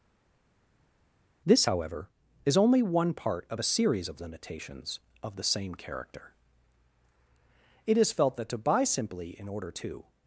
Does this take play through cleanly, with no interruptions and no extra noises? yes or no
yes